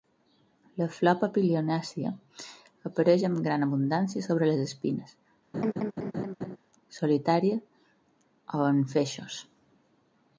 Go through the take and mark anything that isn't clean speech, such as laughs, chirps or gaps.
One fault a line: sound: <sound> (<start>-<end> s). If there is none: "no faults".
sound: laugh (5.5-6.6 s)